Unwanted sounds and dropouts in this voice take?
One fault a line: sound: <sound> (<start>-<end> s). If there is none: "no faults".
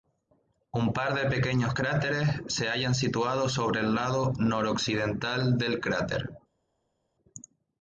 no faults